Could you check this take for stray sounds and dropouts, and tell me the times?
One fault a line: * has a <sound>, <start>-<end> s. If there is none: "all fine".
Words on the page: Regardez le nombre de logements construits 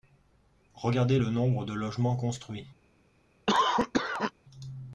* has a cough, 3.5-4.3 s